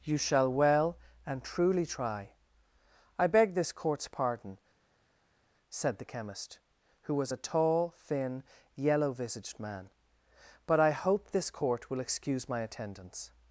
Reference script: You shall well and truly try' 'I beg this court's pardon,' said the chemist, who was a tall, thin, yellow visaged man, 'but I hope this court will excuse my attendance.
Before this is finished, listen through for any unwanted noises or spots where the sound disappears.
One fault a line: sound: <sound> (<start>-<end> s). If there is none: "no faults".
no faults